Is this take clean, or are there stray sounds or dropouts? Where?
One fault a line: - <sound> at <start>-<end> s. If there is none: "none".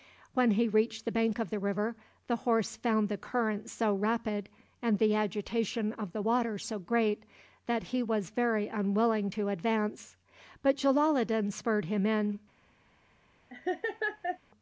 - laugh at 13.5-14.4 s